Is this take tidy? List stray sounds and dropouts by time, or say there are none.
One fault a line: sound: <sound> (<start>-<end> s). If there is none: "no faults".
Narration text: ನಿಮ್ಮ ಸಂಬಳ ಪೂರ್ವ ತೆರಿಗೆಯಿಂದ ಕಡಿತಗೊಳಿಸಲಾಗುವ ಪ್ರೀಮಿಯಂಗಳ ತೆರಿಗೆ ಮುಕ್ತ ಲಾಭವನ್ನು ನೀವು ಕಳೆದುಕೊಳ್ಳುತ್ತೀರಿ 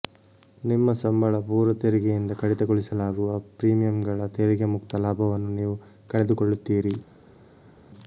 no faults